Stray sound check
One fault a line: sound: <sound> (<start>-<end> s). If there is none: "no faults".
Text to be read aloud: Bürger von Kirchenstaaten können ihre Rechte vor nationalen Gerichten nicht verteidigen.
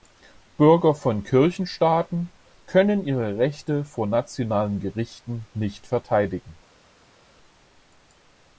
no faults